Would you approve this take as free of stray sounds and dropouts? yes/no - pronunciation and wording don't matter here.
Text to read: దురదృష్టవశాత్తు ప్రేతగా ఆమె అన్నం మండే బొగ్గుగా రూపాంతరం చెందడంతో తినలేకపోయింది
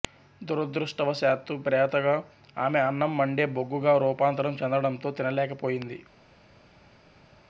yes